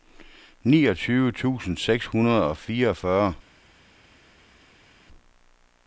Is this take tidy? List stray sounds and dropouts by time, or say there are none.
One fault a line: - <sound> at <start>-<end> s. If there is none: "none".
none